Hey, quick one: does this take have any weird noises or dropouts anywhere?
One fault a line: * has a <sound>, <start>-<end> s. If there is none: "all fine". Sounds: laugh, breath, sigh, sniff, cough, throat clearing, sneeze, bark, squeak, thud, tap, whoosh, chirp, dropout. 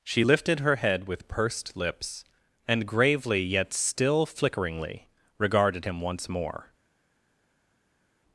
all fine